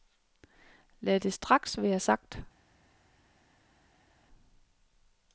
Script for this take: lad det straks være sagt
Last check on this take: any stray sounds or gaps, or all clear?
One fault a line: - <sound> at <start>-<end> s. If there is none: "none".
none